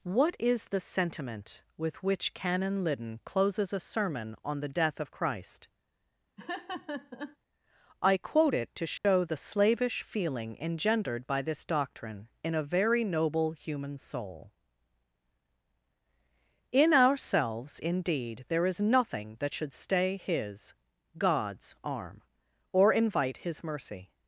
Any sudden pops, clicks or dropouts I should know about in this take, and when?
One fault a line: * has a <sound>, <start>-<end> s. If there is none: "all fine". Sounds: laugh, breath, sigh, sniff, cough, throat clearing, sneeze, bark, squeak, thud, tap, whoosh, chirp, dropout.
* has a laugh, 6.4-7.4 s
* has a dropout, 9.0-9.0 s